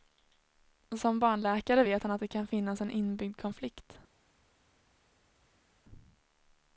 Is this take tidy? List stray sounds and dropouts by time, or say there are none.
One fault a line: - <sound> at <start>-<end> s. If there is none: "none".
none